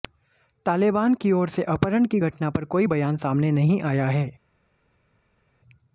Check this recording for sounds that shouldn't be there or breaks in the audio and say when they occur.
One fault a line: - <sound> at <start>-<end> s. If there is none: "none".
none